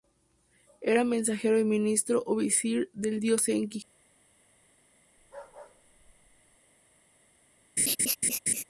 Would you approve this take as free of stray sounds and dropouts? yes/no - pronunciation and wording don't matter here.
no